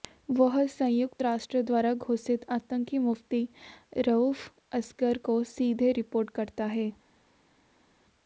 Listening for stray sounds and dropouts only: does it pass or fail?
pass